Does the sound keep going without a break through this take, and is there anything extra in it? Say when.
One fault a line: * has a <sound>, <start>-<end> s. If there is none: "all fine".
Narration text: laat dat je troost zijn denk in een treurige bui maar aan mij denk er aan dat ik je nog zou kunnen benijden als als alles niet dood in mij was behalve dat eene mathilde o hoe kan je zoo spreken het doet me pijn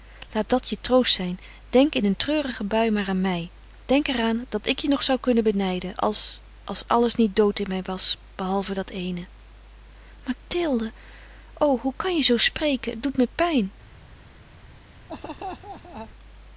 * has a laugh, 15.1-16.1 s